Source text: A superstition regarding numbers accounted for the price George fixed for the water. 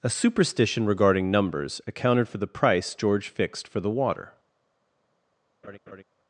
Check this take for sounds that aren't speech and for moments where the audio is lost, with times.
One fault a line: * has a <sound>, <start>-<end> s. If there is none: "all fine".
* has a laugh, 5.6-6.0 s